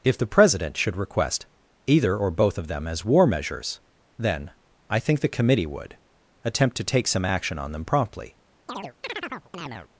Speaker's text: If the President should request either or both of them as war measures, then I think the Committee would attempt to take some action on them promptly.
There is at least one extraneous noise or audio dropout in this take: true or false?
true